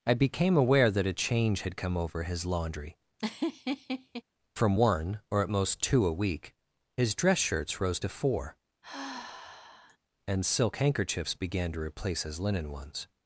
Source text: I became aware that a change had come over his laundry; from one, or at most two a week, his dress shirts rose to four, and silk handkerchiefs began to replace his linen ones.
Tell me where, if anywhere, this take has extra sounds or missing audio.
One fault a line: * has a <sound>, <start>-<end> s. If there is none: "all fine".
* has a laugh, 3.2-4.2 s
* has a sigh, 8.8-10.0 s